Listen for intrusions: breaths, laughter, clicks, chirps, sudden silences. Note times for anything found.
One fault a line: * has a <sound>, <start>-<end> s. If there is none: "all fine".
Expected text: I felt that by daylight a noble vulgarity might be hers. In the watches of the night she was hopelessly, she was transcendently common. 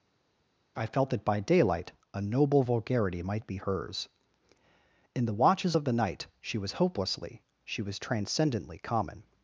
all fine